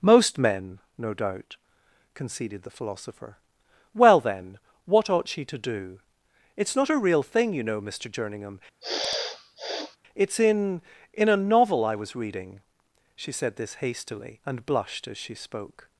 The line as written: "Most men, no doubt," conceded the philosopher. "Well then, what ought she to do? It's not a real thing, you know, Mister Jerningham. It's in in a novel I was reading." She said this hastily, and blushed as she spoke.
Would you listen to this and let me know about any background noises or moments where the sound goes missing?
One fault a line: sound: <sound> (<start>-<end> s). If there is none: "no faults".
sound: sniff (8.8-10.0 s)